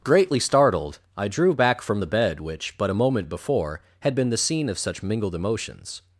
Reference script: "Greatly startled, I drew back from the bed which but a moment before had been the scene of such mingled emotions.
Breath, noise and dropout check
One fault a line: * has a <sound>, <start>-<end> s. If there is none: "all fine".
all fine